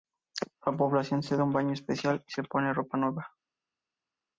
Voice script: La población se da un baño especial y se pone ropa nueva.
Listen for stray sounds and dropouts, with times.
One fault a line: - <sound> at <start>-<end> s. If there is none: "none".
none